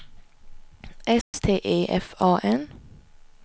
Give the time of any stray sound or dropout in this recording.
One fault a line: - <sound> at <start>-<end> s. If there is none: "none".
- dropout at 1.2-1.3 s